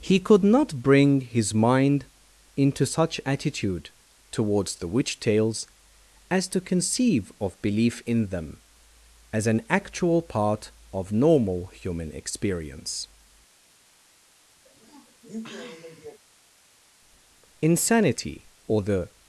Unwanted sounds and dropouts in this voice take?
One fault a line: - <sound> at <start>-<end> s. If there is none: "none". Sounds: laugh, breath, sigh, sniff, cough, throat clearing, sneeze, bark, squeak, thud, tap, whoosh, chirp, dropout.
- sniff at 14.6-16.2 s